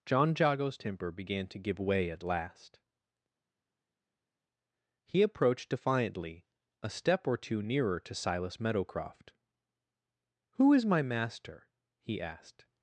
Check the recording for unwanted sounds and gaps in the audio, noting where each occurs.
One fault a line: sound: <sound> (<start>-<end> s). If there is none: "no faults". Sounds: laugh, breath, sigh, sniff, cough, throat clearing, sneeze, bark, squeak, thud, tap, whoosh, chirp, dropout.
no faults